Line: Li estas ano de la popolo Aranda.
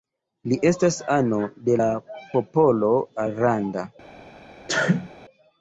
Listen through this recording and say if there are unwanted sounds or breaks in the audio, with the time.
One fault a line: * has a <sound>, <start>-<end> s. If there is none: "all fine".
* has a sneeze, 4.7-5.1 s